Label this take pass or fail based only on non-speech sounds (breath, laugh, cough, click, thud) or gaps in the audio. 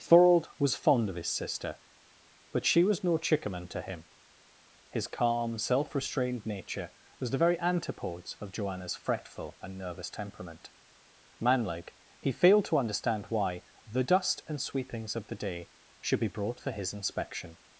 pass